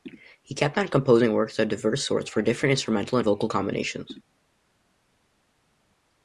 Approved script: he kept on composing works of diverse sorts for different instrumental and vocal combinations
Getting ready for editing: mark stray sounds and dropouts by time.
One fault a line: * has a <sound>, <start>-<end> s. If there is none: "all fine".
all fine